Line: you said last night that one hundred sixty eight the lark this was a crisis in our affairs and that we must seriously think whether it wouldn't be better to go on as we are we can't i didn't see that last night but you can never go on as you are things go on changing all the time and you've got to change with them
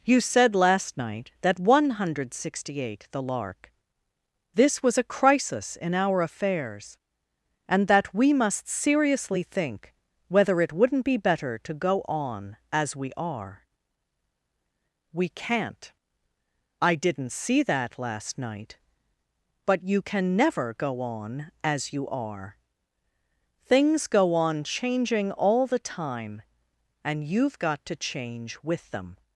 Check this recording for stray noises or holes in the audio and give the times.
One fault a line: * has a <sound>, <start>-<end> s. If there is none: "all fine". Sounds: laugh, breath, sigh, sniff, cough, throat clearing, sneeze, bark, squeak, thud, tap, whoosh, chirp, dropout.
all fine